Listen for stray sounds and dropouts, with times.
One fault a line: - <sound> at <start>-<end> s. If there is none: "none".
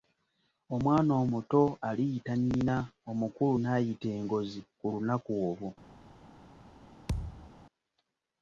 - thud at 7.1-7.5 s